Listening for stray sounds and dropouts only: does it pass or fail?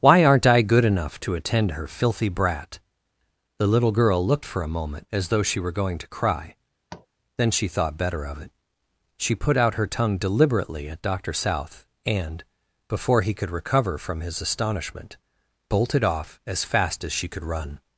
fail